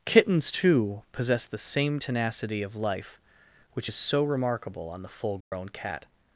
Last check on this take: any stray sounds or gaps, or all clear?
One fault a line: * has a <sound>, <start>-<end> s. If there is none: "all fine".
* has a dropout, 5.4-5.5 s